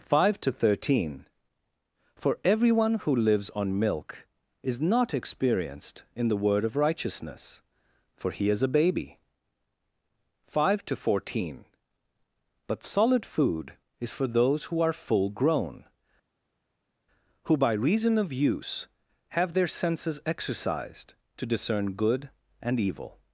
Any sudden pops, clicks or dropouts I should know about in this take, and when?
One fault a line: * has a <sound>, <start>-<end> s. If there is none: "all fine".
all fine